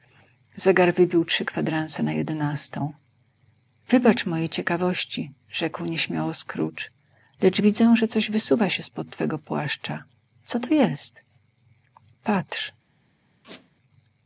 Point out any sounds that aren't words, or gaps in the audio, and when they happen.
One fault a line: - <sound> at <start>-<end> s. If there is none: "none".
- squeak at 13.4-13.7 s